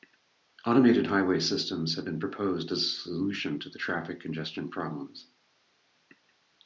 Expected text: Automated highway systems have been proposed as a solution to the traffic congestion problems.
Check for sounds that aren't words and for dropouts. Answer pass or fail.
pass